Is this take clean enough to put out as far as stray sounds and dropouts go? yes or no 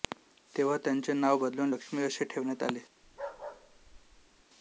no